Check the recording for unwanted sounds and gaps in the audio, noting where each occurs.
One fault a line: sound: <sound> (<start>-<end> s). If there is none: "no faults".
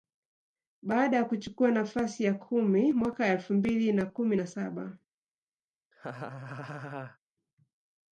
sound: laugh (5.9-7.2 s)